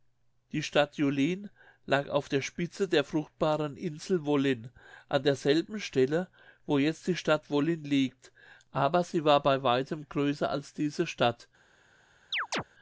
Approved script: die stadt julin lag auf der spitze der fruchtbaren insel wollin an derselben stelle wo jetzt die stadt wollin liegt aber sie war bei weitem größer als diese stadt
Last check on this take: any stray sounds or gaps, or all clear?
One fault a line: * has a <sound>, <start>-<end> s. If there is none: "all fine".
* has a chirp, 12.3-12.6 s